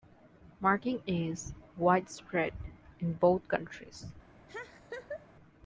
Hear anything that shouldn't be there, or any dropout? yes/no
yes